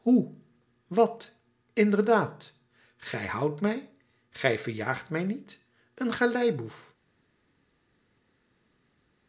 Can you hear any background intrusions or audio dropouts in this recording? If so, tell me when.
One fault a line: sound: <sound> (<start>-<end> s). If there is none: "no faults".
no faults